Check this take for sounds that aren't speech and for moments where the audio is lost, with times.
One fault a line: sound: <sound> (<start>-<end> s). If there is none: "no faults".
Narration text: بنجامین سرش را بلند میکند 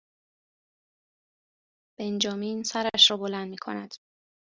no faults